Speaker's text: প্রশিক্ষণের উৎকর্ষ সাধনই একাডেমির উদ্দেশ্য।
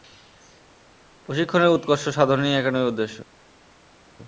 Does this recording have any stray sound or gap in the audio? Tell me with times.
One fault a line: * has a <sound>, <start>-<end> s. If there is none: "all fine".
all fine